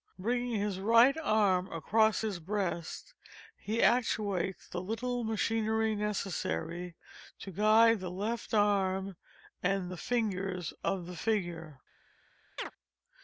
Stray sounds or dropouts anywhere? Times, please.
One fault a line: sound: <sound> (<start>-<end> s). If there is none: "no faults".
sound: chirp (12.6-12.7 s)